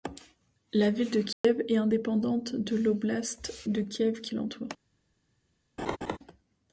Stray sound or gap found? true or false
true